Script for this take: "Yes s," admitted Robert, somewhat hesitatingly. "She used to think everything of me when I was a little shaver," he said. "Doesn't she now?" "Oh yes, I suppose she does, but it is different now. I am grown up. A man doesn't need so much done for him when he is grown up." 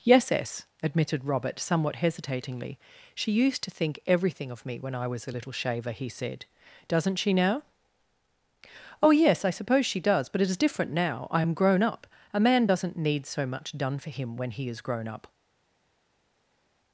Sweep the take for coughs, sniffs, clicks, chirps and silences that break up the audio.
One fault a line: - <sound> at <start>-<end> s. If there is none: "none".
none